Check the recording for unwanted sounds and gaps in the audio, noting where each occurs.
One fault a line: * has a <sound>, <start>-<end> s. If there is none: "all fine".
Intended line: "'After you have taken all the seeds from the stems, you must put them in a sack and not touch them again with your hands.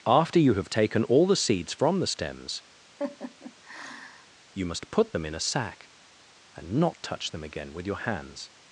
* has a laugh, 3.0-4.3 s